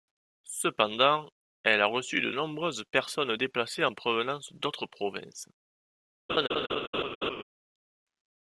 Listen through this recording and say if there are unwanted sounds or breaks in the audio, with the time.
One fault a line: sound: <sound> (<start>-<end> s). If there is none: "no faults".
sound: laugh (6.3-7.4 s)